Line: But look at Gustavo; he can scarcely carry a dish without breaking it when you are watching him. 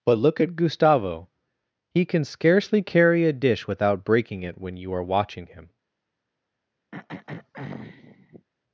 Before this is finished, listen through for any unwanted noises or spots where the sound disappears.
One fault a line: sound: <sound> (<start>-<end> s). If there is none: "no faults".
sound: throat clearing (6.9-8.5 s)